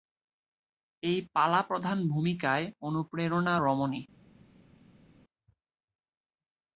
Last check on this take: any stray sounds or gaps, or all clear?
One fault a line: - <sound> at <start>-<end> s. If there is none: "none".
none